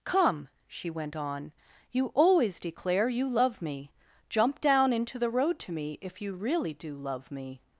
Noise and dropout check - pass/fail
pass